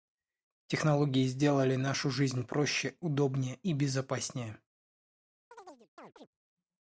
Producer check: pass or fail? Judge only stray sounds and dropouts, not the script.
fail